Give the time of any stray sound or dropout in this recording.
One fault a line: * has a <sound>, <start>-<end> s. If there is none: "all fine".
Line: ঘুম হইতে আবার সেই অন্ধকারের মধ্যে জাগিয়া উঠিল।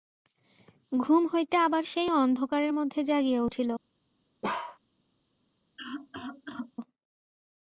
* has a bark, 4.4-4.8 s
* has a cough, 5.8-6.7 s